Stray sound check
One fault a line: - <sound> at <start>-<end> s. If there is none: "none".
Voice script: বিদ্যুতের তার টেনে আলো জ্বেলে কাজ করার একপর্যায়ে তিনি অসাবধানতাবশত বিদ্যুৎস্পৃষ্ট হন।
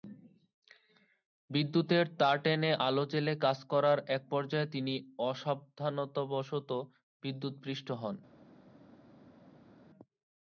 none